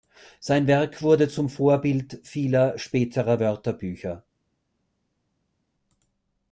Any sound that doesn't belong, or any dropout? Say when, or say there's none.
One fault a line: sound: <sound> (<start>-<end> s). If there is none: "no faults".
no faults